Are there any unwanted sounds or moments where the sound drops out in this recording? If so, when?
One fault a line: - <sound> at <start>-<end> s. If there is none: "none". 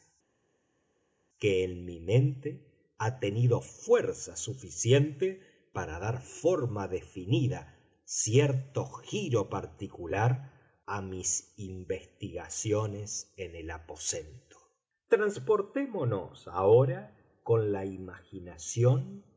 none